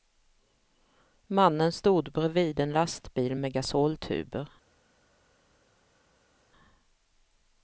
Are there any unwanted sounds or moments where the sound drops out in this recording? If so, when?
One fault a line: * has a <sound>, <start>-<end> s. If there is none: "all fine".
all fine